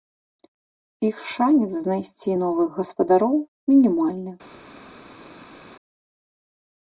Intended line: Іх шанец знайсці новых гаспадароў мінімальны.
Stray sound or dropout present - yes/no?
no